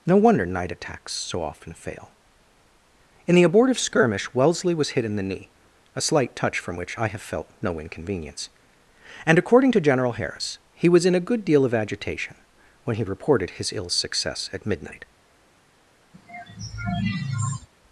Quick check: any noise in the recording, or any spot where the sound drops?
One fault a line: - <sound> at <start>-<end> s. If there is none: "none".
- sigh at 16.1-17.7 s